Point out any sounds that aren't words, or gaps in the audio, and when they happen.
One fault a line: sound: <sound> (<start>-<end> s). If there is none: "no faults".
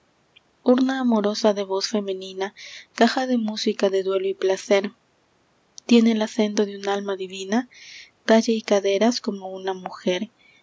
no faults